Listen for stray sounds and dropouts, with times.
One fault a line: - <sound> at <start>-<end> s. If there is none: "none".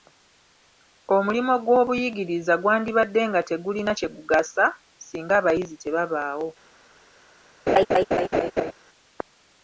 - laugh at 7.7-8.7 s